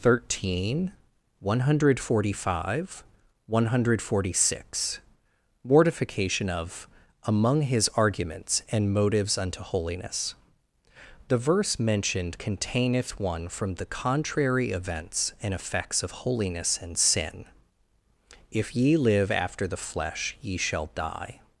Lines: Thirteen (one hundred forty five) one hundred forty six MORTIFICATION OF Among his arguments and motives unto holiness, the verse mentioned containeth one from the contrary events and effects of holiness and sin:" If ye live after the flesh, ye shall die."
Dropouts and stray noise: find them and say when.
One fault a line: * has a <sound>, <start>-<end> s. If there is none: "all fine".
all fine